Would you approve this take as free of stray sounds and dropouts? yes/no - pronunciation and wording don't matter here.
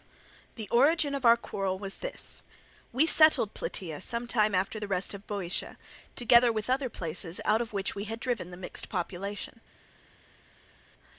yes